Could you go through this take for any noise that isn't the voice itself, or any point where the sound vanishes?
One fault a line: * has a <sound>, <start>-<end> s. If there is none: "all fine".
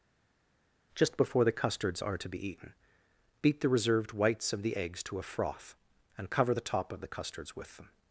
all fine